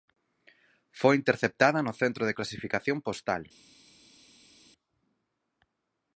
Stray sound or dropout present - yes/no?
no